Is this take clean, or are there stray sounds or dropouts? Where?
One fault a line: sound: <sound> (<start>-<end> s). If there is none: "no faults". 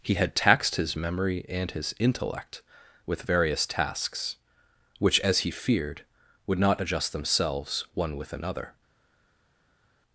no faults